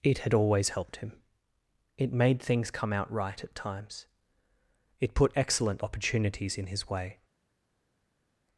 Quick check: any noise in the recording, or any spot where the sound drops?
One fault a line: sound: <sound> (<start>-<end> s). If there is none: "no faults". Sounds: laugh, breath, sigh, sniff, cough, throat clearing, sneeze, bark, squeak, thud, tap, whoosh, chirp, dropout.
no faults